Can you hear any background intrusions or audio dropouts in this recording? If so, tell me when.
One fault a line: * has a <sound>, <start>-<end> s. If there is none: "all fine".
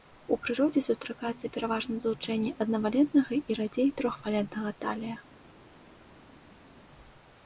all fine